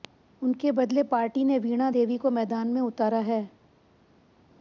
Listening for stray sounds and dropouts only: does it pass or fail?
pass